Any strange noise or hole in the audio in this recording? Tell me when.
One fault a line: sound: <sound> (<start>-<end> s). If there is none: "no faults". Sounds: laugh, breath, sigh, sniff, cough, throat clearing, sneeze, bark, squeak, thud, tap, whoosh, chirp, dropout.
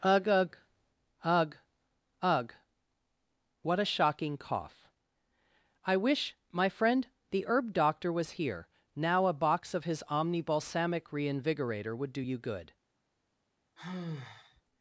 sound: sigh (13.8-14.6 s)